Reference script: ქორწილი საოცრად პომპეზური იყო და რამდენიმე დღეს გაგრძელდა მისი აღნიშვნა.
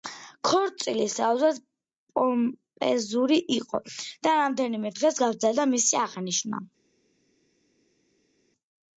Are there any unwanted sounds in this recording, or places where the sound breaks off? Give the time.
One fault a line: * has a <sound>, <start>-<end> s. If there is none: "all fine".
all fine